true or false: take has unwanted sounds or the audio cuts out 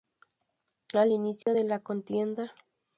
true